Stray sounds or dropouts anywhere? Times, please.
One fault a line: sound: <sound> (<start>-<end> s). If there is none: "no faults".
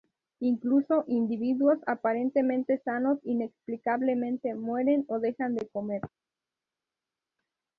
no faults